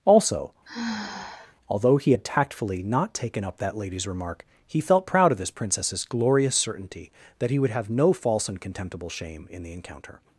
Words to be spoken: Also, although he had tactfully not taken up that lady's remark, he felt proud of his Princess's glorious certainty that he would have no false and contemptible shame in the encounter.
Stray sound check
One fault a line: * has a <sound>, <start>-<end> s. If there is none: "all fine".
* has a sigh, 0.7-1.6 s